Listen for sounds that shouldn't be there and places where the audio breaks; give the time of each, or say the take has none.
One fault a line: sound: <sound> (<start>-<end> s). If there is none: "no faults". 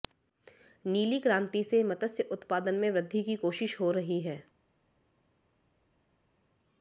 no faults